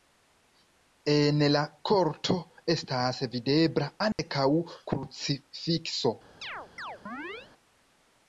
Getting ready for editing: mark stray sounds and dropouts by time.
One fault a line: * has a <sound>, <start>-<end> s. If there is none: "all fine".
* has a dropout, 4.1-4.2 s
* has a chirp, 6.4-7.5 s